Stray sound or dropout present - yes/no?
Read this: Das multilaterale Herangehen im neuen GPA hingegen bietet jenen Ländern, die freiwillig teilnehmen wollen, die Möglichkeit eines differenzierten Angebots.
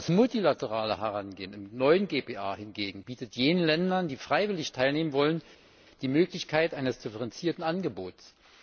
no